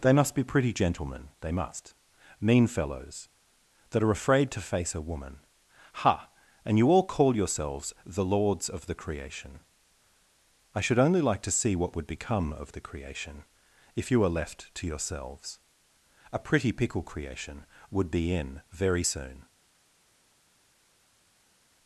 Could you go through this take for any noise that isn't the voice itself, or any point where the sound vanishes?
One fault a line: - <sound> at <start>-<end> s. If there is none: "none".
none